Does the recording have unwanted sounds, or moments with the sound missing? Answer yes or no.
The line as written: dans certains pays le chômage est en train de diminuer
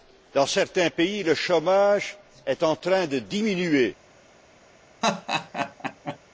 yes